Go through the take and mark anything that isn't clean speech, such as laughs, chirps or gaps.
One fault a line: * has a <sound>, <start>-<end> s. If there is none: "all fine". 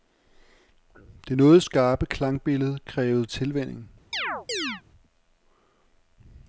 * has a chirp, 4.1-4.8 s